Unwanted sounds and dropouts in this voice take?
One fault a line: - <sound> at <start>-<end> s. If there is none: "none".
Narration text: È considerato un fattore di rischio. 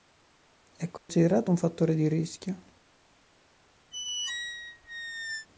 - dropout at 1.0-1.1 s
- squeak at 3.9-5.5 s